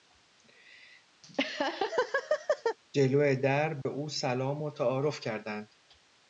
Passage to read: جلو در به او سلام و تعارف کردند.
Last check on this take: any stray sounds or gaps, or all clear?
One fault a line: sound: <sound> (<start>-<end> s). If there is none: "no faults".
sound: laugh (1.2-2.8 s)
sound: dropout (3.8-3.9 s)